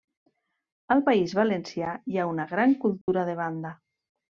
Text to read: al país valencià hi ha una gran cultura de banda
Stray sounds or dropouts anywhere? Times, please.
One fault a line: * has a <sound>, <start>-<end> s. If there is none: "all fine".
* has a dropout, 3.0-3.1 s